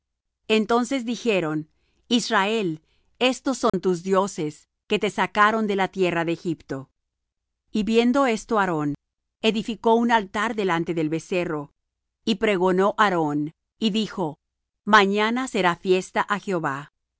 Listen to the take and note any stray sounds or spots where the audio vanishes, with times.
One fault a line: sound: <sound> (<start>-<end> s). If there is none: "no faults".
sound: dropout (3.7-3.7 s)